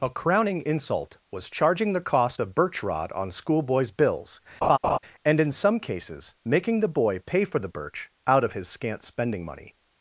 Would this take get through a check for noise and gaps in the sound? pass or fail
fail